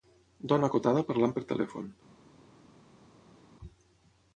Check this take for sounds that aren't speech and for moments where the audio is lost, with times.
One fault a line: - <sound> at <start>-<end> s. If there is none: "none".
none